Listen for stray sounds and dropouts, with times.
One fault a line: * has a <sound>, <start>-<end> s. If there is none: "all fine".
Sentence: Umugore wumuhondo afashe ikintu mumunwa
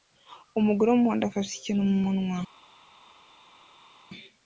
all fine